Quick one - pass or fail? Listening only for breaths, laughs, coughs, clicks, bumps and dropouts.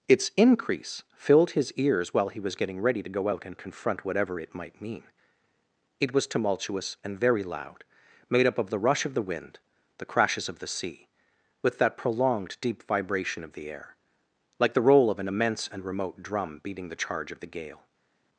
pass